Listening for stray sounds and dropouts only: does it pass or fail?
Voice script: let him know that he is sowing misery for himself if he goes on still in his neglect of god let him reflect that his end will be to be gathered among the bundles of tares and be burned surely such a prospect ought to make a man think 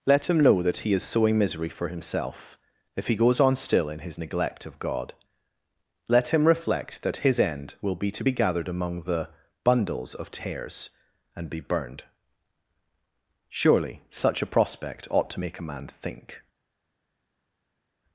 pass